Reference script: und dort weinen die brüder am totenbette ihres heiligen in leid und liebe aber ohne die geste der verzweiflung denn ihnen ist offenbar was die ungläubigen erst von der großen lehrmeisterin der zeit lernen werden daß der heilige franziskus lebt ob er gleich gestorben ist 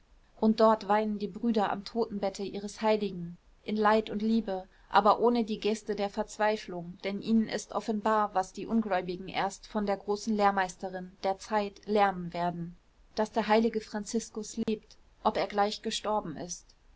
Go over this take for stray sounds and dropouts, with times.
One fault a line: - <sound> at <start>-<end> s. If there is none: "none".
- dropout at 14.6-14.7 s